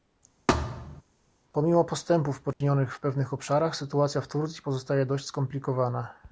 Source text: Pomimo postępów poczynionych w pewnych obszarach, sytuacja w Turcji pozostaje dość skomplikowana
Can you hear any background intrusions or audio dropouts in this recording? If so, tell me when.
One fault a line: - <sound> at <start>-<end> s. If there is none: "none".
- thud at 0.5-1.0 s
- dropout at 2.5-2.6 s